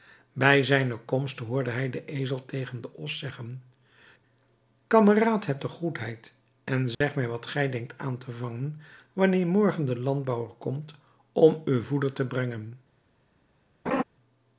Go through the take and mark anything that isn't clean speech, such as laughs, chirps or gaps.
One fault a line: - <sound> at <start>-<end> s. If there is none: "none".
- dropout at 6.9-7.0 s
- laugh at 13.9-14.0 s